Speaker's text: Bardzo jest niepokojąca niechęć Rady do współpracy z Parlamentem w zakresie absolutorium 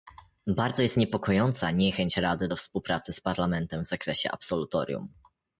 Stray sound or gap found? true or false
false